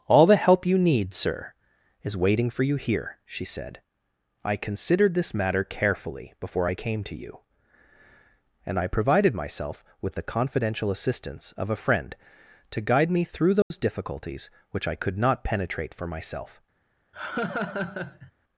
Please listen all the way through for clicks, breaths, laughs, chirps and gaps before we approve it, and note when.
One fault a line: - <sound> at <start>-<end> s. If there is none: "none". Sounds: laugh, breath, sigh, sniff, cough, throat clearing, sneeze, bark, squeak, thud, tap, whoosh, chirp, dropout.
- dropout at 13.6-13.7 s
- laugh at 17.1-18.3 s